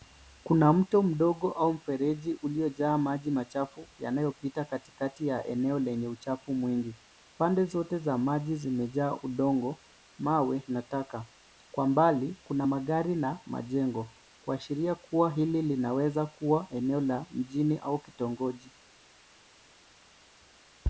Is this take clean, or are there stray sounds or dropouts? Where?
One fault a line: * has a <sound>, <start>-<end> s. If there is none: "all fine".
all fine